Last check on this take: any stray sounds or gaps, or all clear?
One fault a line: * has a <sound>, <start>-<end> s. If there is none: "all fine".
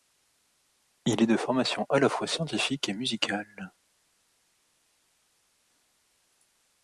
all fine